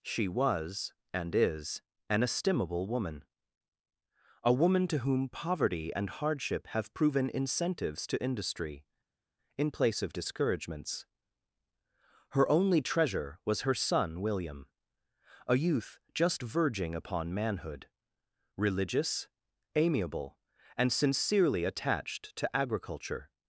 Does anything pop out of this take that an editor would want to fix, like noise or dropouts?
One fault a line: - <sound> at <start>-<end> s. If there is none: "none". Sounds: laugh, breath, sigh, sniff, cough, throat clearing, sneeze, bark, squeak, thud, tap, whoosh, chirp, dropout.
none